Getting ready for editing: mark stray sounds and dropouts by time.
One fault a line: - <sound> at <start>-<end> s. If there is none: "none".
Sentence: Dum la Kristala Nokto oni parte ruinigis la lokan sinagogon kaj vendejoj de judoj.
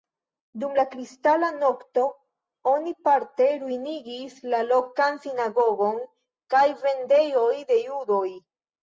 none